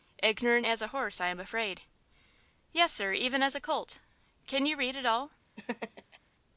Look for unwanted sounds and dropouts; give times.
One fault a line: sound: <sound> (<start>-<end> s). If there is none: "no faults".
sound: laugh (5.6-6.2 s)